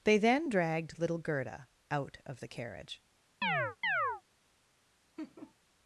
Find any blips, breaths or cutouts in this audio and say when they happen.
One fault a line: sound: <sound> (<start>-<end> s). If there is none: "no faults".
sound: chirp (3.4-4.2 s)
sound: laugh (5.2-5.5 s)